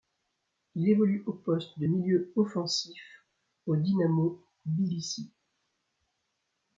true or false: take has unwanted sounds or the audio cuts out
false